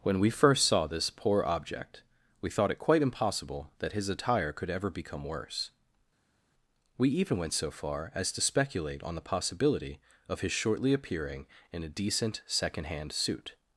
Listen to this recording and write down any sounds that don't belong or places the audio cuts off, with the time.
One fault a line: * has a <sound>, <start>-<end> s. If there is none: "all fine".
all fine